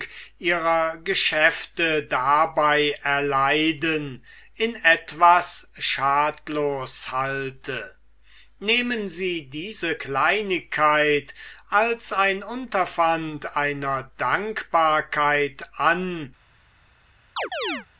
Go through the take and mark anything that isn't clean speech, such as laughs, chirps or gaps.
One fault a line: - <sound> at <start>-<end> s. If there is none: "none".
- chirp at 17.4-17.9 s